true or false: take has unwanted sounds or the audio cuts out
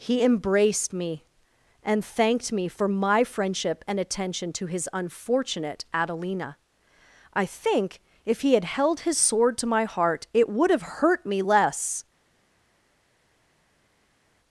false